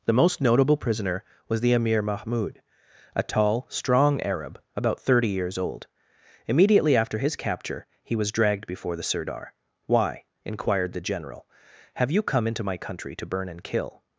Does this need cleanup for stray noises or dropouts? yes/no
no